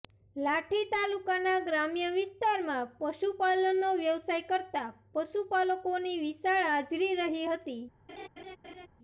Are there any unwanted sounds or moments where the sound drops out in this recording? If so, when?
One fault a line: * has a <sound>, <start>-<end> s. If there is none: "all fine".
* has a laugh, 8.1-8.9 s